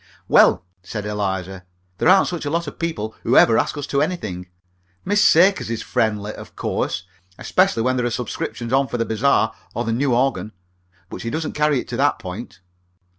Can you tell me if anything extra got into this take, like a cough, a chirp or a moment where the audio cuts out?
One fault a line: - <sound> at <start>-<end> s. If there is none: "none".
none